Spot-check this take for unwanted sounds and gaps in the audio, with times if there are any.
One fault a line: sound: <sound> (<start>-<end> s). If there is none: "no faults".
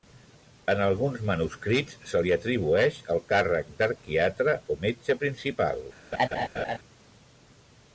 sound: laugh (6.1-6.8 s)